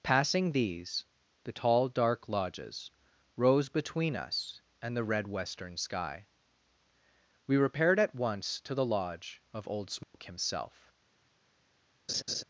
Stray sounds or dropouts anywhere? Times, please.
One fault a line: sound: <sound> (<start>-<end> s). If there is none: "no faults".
sound: dropout (10.0-10.1 s)
sound: laugh (12.1-12.4 s)